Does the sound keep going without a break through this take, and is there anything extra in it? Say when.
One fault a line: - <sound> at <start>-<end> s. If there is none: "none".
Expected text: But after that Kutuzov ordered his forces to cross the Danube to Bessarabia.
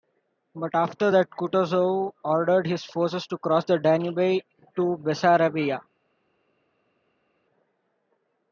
none